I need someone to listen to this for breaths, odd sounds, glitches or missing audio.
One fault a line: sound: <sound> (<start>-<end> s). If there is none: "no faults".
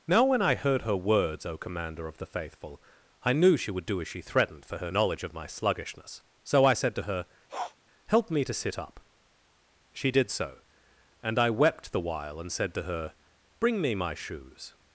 sound: sniff (7.5-7.8 s)